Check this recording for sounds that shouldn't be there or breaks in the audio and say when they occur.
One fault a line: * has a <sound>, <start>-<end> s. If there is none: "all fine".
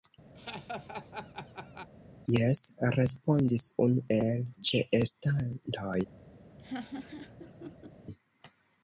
* has a laugh, 0.4-1.9 s
* has a laugh, 6.6-7.9 s